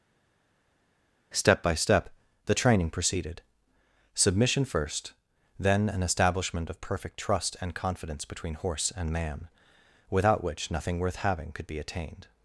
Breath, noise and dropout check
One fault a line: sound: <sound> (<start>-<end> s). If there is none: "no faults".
no faults